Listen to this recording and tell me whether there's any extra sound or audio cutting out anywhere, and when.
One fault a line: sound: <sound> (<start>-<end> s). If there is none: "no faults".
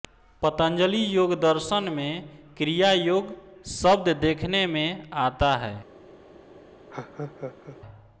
sound: laugh (6.9-7.8 s)